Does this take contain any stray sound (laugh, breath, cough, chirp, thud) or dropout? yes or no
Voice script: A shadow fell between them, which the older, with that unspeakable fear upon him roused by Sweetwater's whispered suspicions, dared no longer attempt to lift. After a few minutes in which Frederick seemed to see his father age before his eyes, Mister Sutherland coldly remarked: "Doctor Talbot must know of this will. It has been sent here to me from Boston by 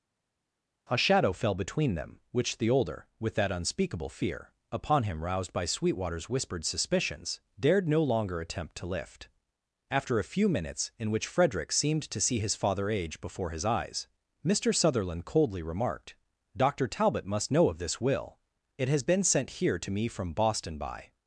no